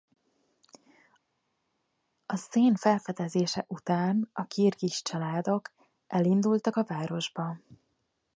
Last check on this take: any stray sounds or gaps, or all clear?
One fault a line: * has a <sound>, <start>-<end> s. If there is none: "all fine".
all fine